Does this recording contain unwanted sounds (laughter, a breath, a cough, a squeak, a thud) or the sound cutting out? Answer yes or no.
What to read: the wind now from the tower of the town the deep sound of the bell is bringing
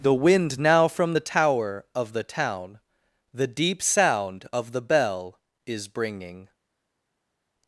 no